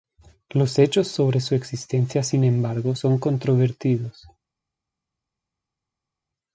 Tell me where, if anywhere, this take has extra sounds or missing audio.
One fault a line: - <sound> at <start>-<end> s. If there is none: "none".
none